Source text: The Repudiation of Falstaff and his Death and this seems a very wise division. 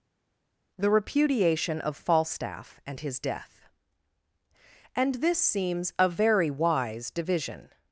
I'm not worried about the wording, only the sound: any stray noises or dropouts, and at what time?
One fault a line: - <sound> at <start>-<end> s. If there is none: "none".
none